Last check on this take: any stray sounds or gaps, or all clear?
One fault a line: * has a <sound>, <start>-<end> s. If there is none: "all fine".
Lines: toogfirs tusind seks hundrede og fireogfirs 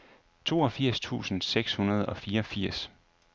all fine